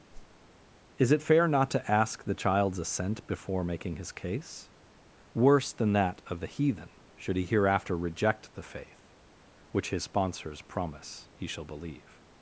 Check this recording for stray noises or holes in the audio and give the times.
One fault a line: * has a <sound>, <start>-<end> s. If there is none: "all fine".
* has a whoosh, 0.1-0.5 s